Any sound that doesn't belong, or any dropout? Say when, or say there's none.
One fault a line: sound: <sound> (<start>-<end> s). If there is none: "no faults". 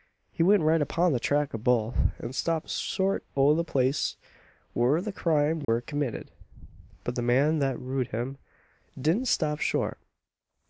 sound: dropout (5.6-5.7 s)